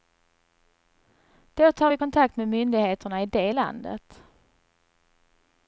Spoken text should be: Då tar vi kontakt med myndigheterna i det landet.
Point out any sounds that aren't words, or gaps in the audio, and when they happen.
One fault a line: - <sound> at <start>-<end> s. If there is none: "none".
none